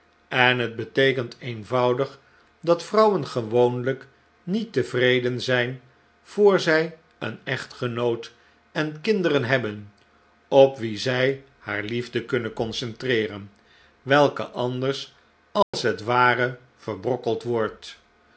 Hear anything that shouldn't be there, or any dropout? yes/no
yes